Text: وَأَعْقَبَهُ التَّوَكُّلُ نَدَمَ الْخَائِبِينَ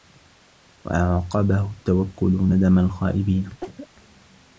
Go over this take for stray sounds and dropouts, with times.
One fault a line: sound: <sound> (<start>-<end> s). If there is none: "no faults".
sound: cough (3.6-3.9 s)